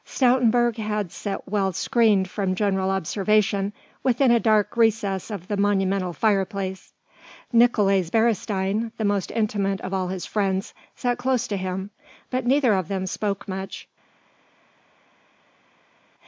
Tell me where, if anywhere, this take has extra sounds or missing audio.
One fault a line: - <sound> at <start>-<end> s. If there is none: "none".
none